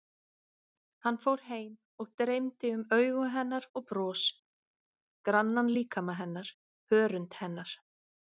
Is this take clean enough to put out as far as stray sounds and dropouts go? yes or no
yes